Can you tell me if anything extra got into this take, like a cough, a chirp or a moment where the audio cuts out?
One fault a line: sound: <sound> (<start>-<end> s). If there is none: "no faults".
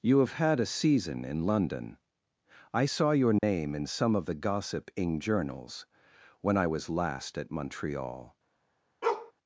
sound: dropout (3.4-3.4 s)
sound: bark (9.0-9.3 s)